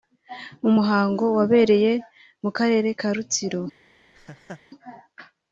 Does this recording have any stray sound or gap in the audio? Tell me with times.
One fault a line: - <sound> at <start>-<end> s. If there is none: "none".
- laugh at 4.1-4.6 s